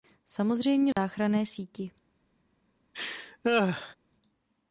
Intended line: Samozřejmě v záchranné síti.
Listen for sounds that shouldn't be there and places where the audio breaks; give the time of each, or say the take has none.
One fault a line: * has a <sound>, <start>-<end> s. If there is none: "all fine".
* has a dropout, 0.9-1.0 s
* has a laugh, 2.9-4.0 s